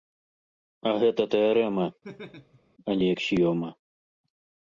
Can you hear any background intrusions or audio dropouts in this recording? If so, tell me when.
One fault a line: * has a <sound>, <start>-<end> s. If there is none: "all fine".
* has a laugh, 2.0-2.6 s